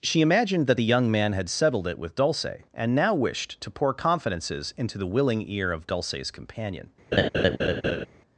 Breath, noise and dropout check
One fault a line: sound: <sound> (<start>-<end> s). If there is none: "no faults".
sound: laugh (7.1-8.1 s)